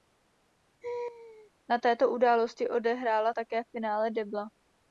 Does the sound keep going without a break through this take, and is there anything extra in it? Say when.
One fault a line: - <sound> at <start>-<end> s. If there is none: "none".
- laugh at 0.8-1.5 s